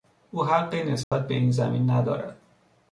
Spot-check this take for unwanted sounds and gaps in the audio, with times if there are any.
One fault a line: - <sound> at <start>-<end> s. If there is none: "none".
- dropout at 1.0-1.1 s